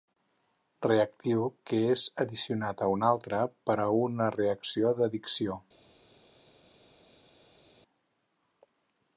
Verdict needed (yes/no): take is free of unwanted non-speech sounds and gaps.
yes